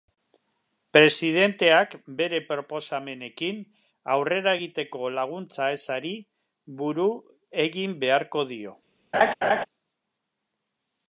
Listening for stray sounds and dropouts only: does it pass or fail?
fail